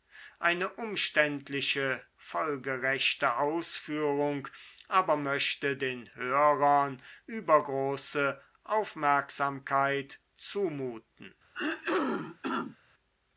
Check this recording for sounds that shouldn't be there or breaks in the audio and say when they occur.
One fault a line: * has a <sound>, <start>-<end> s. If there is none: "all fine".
* has a throat clearing, 11.5-12.8 s